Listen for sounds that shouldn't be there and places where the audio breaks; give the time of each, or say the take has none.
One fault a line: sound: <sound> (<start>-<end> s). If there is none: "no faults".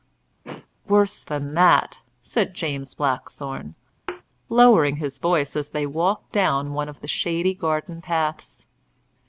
sound: throat clearing (0.4-0.7 s)
sound: thud (4.1-4.2 s)